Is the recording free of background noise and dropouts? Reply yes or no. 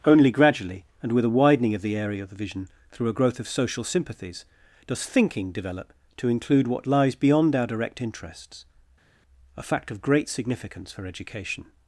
yes